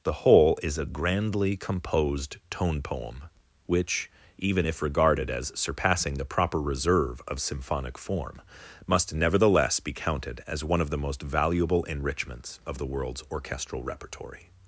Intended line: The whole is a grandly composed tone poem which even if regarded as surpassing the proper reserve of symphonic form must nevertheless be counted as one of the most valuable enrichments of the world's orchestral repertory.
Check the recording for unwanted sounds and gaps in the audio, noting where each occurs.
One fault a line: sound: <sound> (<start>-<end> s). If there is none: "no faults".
no faults